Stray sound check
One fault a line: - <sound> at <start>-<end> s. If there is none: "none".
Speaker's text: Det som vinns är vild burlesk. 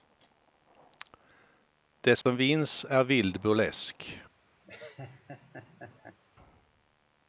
- dropout at 2.2-2.3 s
- laugh at 4.6-6.2 s